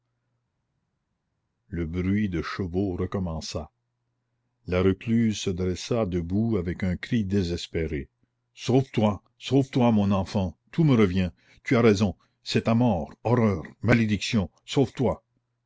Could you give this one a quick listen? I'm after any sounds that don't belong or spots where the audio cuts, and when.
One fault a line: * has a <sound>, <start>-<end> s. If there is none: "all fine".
all fine